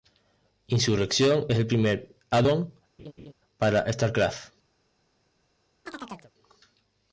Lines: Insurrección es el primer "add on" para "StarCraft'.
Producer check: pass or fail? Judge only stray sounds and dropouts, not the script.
fail